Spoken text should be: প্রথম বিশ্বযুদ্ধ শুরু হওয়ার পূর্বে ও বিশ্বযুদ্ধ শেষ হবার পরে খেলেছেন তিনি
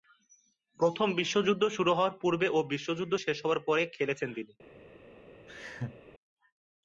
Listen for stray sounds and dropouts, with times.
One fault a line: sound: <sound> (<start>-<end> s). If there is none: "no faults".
sound: laugh (5.5-6.0 s)